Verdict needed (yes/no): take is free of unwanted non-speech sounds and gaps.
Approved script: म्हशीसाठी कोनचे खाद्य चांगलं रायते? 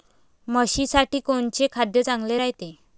yes